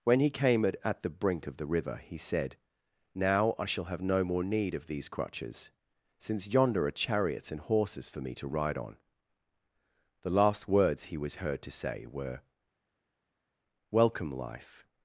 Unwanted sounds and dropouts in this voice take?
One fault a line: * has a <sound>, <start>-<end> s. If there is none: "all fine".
all fine